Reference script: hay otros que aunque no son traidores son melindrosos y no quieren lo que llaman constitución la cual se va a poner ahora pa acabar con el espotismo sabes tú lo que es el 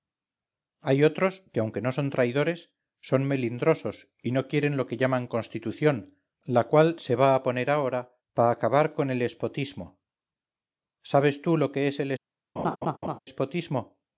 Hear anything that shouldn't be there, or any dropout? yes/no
yes